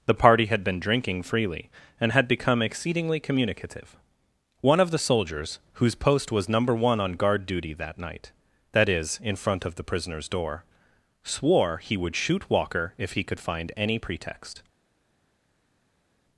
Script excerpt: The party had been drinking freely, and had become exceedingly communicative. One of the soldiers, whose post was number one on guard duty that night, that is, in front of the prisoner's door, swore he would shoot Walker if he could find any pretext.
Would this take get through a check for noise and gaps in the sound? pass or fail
pass